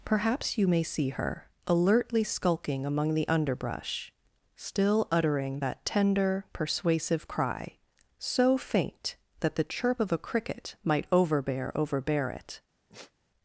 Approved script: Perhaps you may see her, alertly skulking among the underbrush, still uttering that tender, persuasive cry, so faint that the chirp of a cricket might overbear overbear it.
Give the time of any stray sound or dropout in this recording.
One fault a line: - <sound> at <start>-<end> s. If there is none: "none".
- sigh at 12.9-13.1 s